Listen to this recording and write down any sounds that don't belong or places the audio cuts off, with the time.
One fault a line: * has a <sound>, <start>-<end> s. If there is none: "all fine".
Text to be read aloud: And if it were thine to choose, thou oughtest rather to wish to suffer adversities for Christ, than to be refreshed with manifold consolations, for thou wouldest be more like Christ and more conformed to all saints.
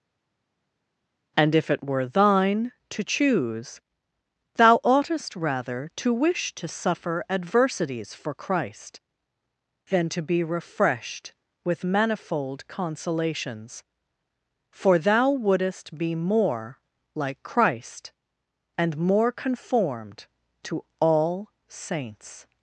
all fine